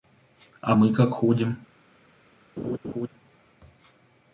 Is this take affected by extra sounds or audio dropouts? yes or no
yes